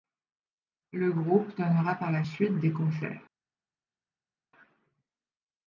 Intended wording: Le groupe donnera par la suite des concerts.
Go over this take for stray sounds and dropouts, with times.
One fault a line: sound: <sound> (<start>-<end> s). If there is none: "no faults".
no faults